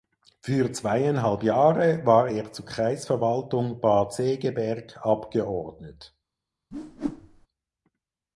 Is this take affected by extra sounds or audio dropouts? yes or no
yes